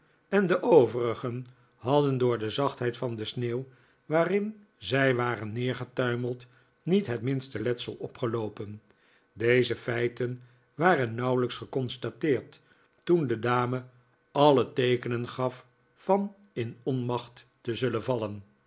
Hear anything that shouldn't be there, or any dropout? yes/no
no